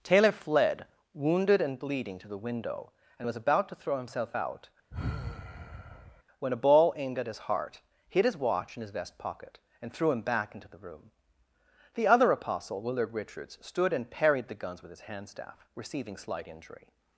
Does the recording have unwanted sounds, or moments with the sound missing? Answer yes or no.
yes